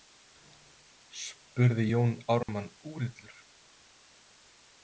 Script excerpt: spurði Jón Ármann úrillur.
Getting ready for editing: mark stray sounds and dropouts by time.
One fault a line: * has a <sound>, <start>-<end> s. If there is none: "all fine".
* has a dropout, 2.4-2.5 s